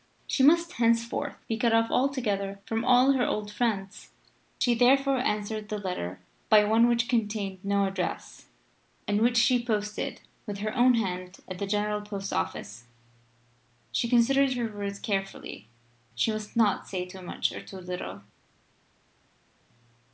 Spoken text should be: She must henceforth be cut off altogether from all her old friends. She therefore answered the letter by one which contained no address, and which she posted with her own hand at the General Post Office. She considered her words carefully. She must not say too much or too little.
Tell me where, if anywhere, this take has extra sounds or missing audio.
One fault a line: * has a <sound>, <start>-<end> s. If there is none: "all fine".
all fine